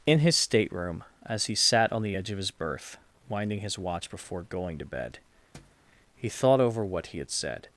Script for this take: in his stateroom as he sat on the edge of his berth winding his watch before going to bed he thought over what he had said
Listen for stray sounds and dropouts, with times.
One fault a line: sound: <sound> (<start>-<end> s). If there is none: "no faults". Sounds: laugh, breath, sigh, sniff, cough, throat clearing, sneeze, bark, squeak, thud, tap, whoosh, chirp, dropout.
sound: thud (5.5-5.9 s)